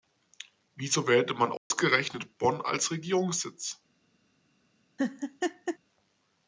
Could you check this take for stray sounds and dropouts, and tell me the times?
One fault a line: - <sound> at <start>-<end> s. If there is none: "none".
- dropout at 1.6-1.7 s
- laugh at 5.0-5.8 s